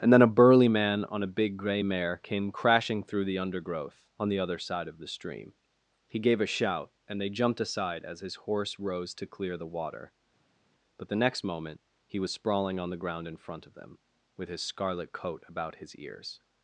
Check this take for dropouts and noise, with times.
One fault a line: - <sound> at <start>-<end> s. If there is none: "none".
none